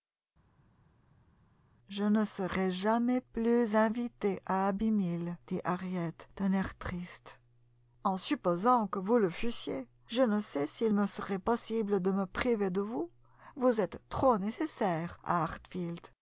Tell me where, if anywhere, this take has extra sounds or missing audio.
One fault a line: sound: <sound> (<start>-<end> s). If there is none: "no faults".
no faults